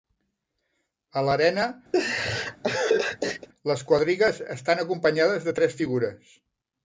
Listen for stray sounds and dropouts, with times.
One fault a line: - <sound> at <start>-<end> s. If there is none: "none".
- laugh at 1.9-3.5 s